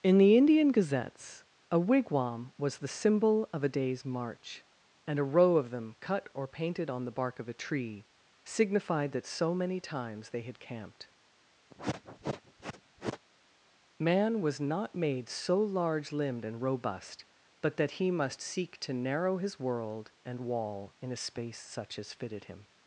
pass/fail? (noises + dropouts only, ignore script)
fail